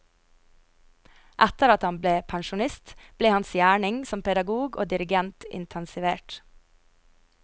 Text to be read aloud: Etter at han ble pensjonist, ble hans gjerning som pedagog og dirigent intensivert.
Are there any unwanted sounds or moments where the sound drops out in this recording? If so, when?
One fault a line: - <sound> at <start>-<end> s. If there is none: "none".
none